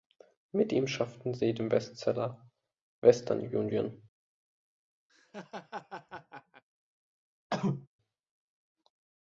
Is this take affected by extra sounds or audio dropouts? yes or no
yes